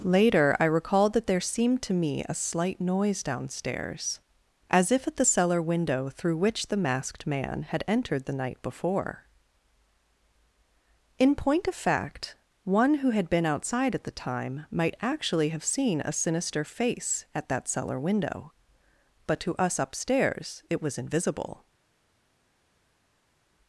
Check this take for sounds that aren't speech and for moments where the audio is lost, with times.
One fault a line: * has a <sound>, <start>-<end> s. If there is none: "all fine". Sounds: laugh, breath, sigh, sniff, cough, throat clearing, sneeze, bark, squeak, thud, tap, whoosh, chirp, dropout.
all fine